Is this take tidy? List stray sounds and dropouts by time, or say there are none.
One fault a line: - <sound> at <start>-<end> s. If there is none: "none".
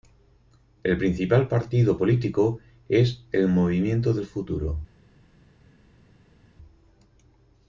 none